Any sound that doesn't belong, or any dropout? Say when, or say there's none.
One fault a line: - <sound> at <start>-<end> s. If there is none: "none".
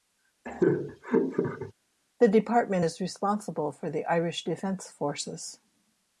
- laugh at 0.4-1.7 s